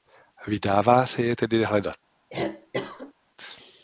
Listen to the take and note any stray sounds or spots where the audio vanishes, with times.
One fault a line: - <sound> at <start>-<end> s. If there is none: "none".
- cough at 2.3-3.1 s